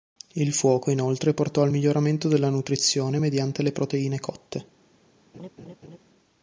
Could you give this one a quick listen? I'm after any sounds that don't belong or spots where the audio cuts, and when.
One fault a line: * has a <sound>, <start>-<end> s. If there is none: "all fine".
* has a laugh, 5.3-6.0 s